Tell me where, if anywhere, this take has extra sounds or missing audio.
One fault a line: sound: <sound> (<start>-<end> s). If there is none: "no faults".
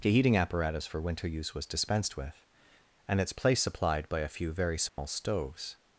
sound: dropout (4.9-5.0 s)